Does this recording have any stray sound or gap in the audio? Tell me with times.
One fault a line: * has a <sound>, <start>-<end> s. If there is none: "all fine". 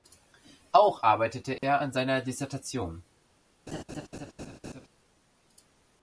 * has a dropout, 1.6-1.6 s
* has a laugh, 3.7-4.9 s